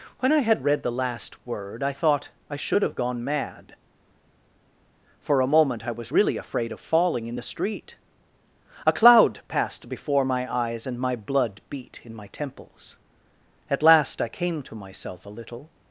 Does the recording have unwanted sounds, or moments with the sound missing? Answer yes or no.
no